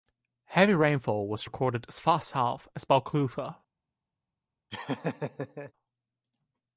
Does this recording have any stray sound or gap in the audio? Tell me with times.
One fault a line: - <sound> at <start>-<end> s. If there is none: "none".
- laugh at 4.7-5.7 s